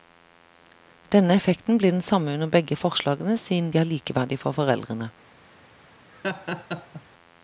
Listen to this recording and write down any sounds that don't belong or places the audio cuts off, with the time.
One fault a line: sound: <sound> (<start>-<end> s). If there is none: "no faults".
sound: laugh (6.1-7.0 s)